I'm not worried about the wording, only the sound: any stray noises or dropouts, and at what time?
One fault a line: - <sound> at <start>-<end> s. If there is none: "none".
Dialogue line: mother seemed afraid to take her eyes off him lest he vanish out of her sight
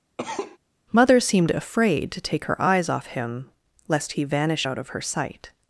- cough at 0.2-0.6 s